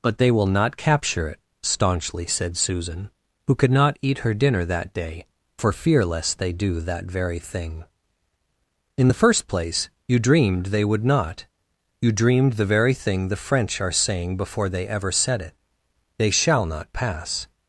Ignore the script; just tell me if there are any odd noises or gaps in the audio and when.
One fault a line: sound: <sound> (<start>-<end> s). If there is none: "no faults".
no faults